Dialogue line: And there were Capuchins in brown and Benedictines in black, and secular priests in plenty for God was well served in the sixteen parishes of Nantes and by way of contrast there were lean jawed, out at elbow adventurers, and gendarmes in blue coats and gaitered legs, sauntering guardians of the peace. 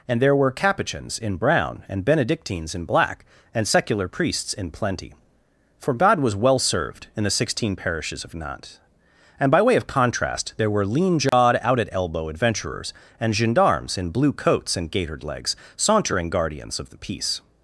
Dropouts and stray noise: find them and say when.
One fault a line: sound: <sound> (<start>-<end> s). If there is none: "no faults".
sound: dropout (11.3-11.3 s)